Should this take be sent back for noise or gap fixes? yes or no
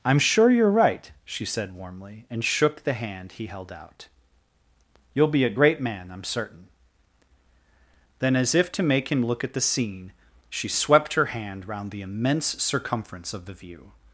no